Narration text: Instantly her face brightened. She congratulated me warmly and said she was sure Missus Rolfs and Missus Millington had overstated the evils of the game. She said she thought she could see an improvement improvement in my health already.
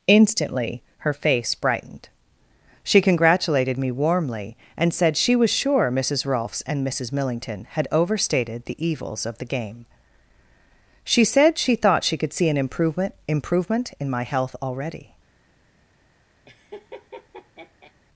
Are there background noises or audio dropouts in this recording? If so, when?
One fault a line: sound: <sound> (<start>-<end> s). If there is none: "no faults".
sound: laugh (16.5-17.9 s)